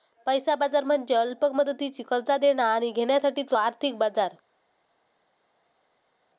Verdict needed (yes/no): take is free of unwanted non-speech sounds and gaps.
yes